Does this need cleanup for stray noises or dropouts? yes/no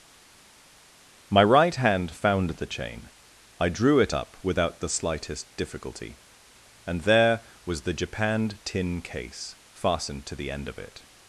no